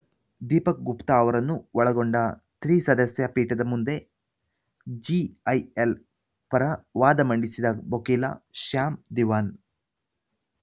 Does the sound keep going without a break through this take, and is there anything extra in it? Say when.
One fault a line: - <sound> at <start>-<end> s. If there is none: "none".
none